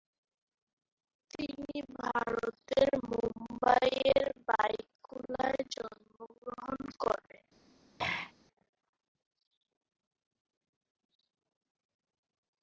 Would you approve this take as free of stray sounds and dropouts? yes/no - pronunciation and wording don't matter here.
no